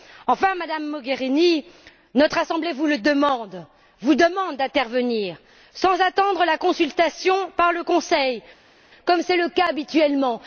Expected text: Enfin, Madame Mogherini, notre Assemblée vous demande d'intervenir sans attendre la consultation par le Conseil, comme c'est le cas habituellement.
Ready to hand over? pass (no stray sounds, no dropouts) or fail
pass